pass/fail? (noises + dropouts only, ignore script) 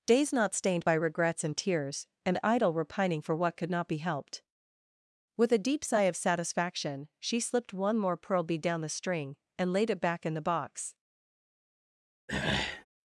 fail